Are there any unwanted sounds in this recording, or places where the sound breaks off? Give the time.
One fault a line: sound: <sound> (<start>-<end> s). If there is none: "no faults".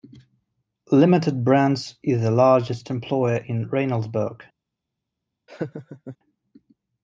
sound: laugh (5.5-6.2 s)